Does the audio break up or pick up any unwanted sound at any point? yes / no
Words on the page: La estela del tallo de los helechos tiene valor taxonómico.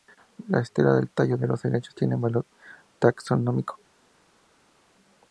no